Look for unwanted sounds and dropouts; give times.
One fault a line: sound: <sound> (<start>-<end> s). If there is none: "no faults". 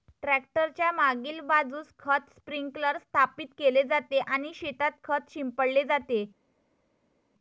no faults